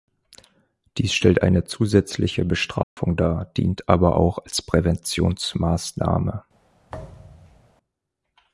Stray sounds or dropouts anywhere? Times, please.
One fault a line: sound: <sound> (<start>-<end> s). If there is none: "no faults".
sound: dropout (2.8-3.0 s)
sound: thud (6.9-7.7 s)